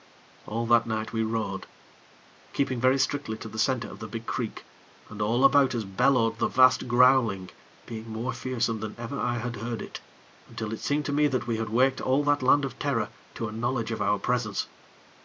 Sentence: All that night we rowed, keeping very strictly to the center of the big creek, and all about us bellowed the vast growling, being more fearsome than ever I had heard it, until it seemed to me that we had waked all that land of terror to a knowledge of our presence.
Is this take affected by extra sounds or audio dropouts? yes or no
no